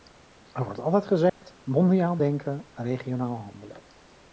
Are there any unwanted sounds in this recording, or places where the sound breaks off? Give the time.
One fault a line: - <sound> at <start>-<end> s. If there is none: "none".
- dropout at 1.3-1.4 s